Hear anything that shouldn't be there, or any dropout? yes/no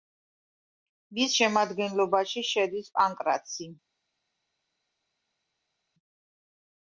no